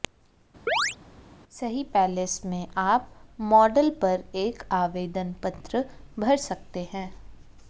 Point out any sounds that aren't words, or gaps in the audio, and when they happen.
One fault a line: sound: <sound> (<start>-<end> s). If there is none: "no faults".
sound: chirp (0.7-1.0 s)